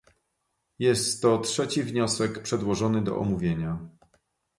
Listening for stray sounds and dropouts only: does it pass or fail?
pass